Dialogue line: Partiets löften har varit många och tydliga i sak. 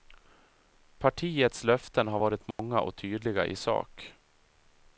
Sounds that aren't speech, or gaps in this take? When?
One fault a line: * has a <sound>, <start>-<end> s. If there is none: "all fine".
* has a dropout, 2.5-2.6 s